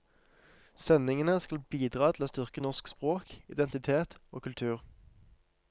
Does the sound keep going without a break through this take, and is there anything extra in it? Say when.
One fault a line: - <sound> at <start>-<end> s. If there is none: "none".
none